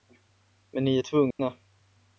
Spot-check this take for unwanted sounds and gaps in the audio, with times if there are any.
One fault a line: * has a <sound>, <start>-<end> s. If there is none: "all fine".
* has a dropout, 1.3-1.4 s